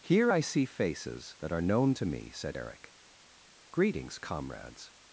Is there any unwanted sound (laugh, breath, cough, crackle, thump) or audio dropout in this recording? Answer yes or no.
no